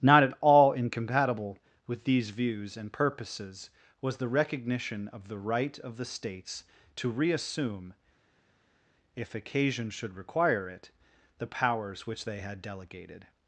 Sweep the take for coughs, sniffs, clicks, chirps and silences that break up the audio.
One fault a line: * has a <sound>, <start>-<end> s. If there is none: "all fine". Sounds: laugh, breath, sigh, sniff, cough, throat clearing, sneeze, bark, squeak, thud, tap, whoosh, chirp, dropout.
all fine